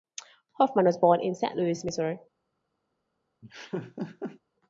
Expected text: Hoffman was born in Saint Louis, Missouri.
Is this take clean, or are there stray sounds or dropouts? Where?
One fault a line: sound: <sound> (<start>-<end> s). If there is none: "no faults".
sound: laugh (3.4-4.4 s)